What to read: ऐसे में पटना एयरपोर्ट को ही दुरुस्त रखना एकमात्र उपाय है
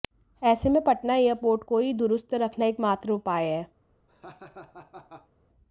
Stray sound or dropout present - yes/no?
yes